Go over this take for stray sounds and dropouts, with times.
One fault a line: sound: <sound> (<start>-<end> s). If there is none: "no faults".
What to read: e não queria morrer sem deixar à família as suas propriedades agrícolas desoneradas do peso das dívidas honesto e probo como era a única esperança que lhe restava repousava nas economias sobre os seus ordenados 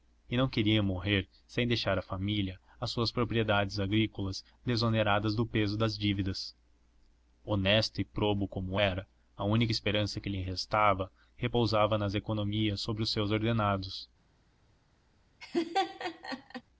sound: laugh (15.4-16.6 s)